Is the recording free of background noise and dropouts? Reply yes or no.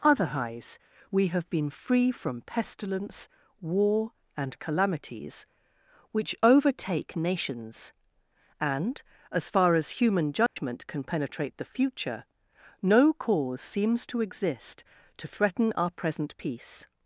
no